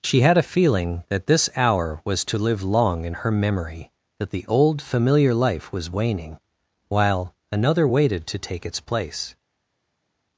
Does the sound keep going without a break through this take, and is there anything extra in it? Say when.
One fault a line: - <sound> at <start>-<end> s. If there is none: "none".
none